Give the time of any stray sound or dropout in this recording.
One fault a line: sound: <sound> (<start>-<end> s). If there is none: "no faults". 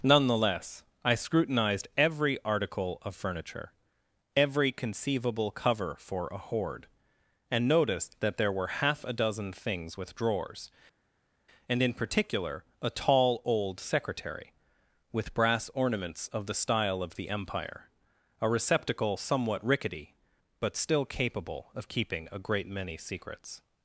no faults